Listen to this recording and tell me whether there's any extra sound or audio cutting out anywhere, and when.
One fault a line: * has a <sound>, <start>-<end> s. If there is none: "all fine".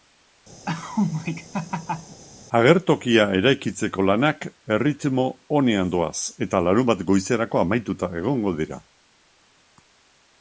* has a laugh, 0.7-2.2 s